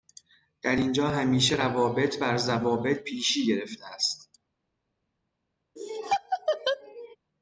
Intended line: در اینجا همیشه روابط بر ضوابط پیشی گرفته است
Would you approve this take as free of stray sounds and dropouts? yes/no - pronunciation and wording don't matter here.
no